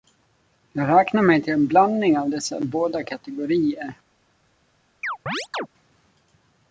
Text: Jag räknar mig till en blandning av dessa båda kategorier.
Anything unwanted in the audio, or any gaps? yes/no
yes